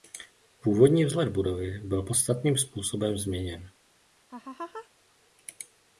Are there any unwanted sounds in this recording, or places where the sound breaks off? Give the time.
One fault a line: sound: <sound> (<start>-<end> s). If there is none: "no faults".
sound: laugh (4.3-4.9 s)